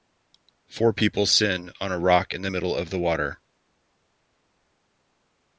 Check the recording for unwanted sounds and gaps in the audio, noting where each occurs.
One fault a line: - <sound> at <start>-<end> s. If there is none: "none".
none